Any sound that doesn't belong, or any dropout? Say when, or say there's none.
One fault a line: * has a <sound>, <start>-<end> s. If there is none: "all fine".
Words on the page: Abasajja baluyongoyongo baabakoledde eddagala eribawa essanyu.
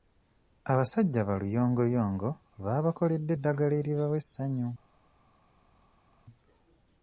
all fine